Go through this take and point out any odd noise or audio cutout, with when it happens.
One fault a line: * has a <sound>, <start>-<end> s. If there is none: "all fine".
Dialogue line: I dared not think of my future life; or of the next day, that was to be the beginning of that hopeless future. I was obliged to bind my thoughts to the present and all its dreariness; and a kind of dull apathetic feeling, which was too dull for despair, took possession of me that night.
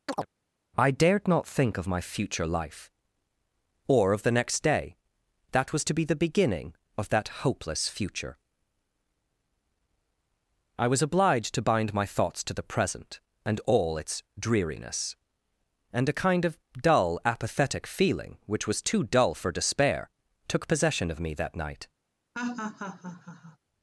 * has a chirp, 0.1-0.3 s
* has a laugh, 22.3-23.6 s